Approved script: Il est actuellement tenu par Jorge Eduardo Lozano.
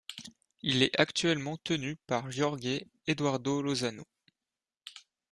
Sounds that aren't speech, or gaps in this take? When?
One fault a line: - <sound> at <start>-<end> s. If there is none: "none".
none